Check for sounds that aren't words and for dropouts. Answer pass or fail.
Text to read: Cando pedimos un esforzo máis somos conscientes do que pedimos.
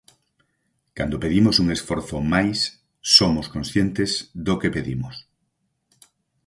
pass